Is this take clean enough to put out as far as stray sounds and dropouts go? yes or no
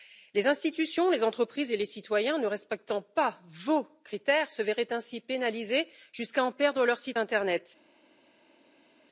yes